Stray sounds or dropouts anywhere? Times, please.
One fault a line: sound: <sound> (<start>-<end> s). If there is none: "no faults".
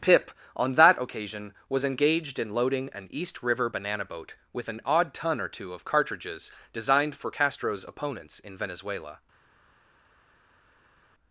no faults